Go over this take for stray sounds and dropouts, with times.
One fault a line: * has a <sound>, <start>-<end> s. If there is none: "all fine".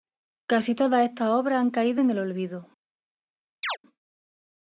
* has a chirp, 3.6-3.8 s